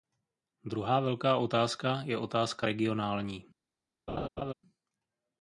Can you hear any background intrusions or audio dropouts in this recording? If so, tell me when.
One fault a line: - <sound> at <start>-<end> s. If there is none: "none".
- laugh at 4.1-4.5 s